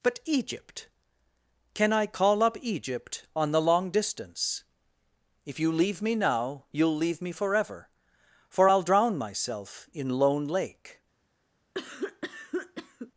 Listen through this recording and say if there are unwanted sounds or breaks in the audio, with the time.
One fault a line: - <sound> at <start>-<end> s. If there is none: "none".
- cough at 11.7-13.1 s